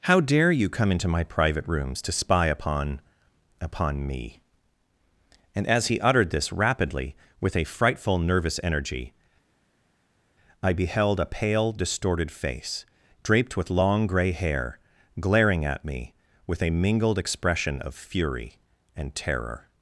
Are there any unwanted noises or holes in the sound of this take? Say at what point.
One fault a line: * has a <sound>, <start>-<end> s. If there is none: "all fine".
all fine